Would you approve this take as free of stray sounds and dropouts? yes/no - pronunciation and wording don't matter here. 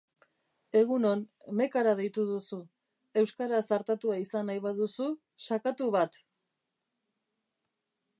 yes